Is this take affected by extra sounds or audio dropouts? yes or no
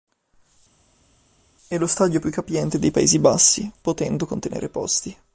no